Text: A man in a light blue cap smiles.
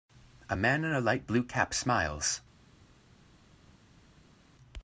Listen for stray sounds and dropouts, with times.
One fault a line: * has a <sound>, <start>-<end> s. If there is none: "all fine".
all fine